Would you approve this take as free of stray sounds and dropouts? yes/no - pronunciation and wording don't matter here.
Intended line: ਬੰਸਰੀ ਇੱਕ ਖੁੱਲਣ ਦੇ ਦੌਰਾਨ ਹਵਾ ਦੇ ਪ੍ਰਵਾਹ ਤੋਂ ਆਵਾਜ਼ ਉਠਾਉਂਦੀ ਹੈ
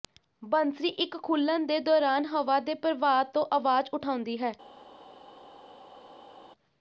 yes